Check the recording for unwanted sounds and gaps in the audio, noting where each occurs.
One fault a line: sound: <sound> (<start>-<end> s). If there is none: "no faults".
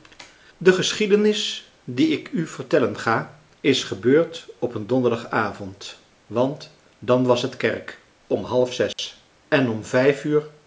sound: dropout (8.9-9.0 s)